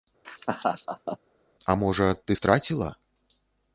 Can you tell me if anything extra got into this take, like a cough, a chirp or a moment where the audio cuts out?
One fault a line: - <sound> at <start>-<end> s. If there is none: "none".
- laugh at 0.2-1.2 s